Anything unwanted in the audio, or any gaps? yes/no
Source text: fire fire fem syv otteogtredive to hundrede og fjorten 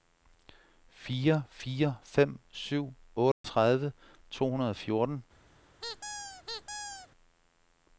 yes